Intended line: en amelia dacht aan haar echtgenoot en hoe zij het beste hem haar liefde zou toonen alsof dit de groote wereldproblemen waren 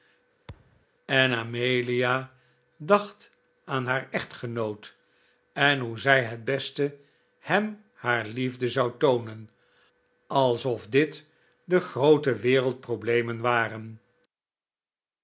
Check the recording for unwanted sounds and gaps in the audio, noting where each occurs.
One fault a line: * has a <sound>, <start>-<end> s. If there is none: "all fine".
* has a thud, 0.5-0.9 s